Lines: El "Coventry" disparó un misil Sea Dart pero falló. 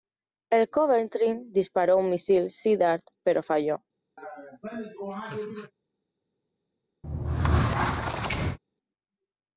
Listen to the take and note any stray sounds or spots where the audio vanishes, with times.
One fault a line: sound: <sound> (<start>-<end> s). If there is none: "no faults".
sound: laugh (4.2-5.7 s)
sound: squeak (7.0-8.6 s)